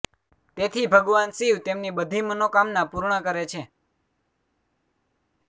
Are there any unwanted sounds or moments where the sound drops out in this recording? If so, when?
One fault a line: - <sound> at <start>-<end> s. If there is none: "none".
none